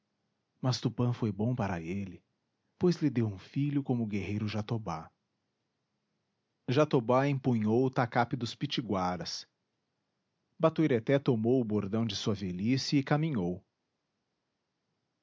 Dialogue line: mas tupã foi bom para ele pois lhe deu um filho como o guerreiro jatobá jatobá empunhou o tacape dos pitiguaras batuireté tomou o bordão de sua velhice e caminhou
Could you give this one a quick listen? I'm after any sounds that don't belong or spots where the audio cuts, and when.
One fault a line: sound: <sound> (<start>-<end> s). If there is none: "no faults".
no faults